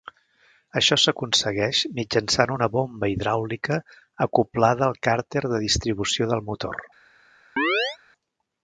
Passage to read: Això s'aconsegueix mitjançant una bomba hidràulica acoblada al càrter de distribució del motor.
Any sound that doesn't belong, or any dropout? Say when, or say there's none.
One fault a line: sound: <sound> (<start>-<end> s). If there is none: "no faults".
sound: chirp (7.6-8.0 s)